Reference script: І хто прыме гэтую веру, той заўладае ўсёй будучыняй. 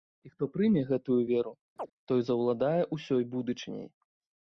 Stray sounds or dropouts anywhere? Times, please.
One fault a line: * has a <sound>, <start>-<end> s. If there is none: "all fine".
* has a chirp, 1.8-1.9 s